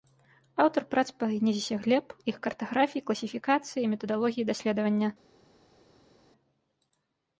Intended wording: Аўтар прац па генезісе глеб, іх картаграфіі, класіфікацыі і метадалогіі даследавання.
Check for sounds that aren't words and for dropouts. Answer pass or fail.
pass